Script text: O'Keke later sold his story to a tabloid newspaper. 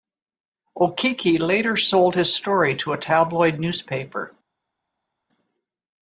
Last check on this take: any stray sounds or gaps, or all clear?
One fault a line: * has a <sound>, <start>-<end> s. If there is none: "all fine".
all fine